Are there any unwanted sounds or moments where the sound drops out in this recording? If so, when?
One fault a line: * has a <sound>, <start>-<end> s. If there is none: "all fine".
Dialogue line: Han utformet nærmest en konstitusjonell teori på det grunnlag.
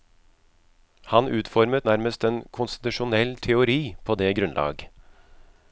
all fine